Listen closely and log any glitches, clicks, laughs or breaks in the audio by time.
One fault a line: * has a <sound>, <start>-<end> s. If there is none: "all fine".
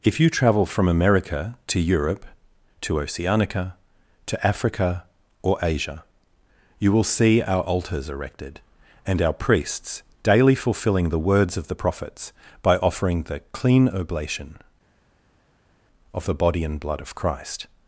all fine